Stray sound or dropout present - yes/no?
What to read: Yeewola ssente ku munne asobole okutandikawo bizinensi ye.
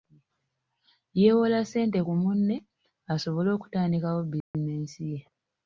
yes